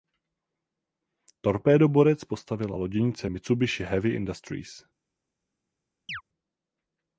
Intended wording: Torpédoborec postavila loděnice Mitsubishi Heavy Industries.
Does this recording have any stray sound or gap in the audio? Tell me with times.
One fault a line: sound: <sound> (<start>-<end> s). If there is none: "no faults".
sound: chirp (6.1-6.2 s)